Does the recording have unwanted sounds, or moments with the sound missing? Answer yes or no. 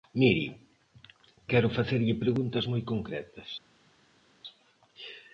no